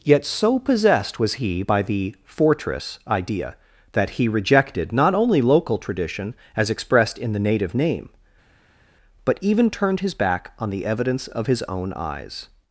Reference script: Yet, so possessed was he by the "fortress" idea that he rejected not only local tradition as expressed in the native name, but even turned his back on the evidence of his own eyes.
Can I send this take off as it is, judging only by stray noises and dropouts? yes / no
yes